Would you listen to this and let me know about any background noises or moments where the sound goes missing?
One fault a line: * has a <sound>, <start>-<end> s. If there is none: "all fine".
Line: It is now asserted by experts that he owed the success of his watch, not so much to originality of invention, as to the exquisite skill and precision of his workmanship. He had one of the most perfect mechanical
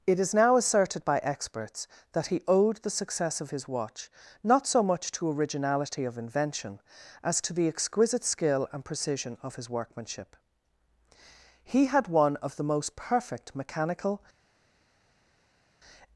all fine